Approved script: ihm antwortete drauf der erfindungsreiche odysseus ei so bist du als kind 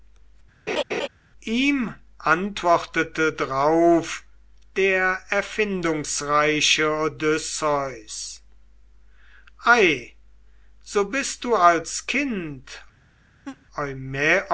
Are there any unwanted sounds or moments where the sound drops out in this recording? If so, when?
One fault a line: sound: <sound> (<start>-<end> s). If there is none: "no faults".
sound: laugh (0.7-1.1 s)
sound: laugh (13.4-13.7 s)